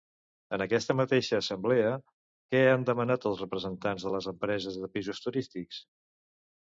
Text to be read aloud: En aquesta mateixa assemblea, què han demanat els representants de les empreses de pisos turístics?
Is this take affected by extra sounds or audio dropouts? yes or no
no